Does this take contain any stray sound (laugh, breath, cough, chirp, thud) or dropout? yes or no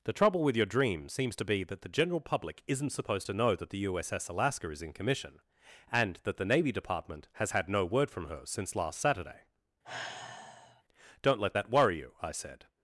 yes